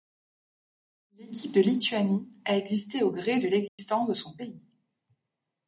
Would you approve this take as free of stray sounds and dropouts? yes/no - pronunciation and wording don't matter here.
no